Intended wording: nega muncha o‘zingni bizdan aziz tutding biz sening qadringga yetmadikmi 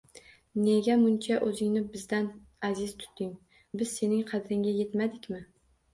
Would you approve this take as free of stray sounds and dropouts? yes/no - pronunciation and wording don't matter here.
yes